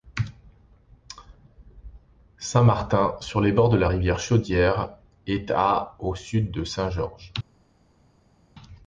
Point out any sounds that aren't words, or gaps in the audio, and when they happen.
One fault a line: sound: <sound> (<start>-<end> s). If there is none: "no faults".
no faults